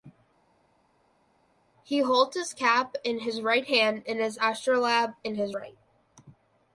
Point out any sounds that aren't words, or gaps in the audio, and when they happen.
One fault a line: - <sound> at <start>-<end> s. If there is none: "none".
none